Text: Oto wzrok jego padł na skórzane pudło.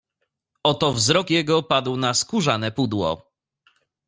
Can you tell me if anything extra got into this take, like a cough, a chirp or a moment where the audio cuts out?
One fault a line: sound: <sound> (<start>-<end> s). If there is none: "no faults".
no faults